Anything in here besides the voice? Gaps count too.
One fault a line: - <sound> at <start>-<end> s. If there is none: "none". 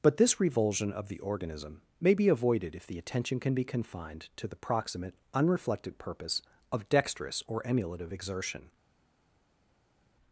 none